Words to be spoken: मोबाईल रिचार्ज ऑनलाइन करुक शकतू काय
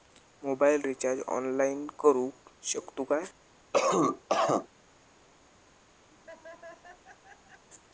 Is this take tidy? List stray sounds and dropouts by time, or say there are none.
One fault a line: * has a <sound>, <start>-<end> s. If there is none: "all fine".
* has a cough, 3.7-4.7 s
* has a laugh, 6.1-7.6 s